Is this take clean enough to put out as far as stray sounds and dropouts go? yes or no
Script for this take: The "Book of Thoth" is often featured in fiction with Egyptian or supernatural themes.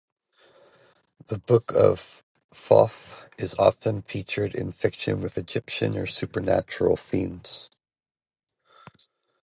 yes